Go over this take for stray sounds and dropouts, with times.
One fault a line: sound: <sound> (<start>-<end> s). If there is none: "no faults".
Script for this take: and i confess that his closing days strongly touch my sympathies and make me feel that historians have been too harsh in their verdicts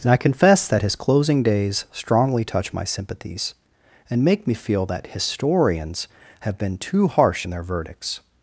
no faults